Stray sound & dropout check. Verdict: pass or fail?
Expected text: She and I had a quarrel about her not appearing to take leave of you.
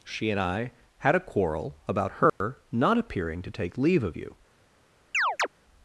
fail